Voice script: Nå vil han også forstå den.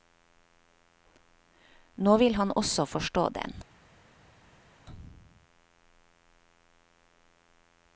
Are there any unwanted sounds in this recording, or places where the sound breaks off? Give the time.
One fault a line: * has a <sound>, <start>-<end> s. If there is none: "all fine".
all fine